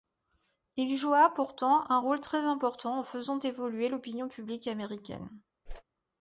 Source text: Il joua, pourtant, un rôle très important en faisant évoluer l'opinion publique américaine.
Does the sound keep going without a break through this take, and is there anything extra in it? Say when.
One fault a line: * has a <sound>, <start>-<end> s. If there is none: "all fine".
* has a whoosh, 5.7-5.8 s